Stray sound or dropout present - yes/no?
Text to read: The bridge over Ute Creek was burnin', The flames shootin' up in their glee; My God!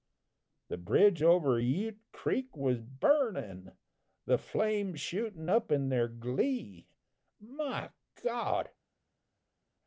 no